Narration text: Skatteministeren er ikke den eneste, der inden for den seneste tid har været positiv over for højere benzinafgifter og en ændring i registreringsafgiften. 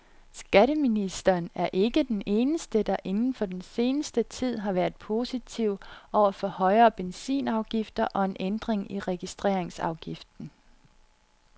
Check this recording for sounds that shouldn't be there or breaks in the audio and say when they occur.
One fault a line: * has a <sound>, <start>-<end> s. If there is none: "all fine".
all fine